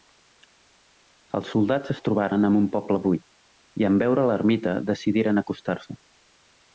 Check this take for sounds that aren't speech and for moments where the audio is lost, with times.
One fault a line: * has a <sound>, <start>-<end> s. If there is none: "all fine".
all fine